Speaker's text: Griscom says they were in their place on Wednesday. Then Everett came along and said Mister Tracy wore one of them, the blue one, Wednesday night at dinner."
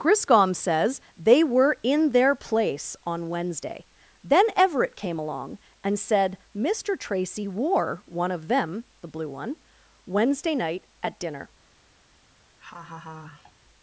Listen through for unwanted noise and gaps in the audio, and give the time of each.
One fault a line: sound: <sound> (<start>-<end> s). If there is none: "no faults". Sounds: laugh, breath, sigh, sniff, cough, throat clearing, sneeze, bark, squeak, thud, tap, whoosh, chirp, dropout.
sound: laugh (12.6-13.5 s)